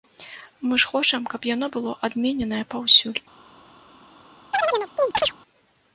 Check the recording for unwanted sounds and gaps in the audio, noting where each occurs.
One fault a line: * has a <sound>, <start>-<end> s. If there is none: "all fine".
* has a chirp, 4.5-5.4 s